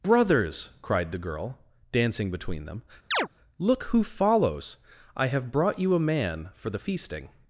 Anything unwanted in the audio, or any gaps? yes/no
yes